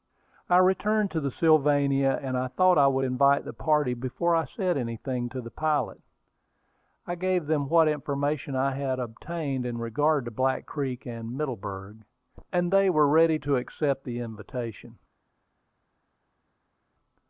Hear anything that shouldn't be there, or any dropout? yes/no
no